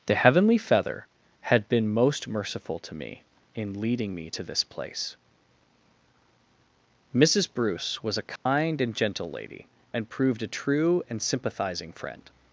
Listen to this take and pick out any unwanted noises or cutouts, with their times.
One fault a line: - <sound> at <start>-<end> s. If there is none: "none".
- dropout at 8.4-8.5 s